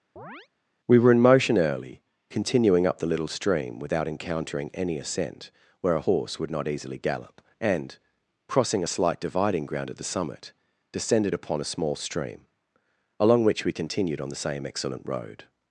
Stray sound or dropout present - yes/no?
yes